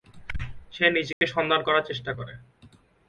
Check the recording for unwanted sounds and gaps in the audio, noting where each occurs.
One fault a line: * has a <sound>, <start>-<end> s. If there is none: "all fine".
* has a dropout, 1.1-1.2 s